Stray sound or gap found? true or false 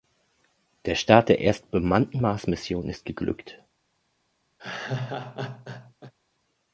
true